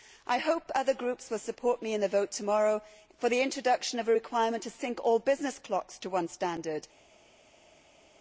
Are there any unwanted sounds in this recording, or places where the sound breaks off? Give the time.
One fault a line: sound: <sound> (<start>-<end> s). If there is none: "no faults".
no faults